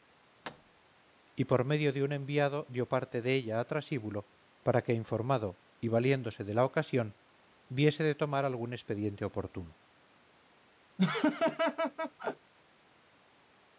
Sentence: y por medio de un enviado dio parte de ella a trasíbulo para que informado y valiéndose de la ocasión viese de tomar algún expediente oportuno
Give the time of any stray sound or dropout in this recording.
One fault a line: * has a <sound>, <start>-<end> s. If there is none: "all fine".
* has a thud, 0.4-0.8 s
* has a laugh, 11.0-12.5 s